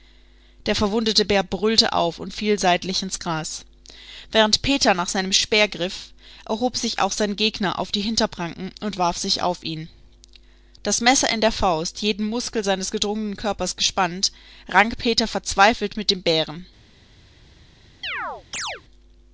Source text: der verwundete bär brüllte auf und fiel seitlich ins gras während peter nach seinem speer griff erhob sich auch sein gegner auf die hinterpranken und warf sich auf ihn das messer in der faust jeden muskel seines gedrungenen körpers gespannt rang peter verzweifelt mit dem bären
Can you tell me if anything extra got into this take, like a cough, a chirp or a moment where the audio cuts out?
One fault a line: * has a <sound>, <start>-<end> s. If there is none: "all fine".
* has a chirp, 18.0-18.8 s